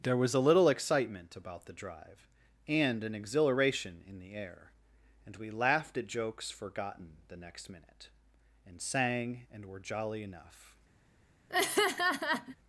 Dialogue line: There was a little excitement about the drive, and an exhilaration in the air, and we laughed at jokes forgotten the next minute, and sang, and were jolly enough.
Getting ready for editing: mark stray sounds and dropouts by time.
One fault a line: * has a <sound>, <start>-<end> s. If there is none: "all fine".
* has a laugh, 11.5-12.6 s